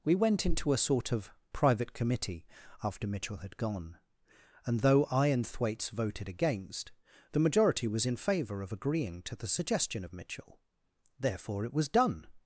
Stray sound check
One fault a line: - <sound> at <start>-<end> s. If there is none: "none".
none